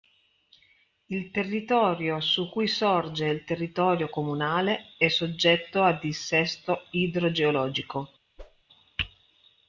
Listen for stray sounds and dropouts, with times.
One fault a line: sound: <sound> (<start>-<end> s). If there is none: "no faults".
sound: whoosh (8.4-8.6 s)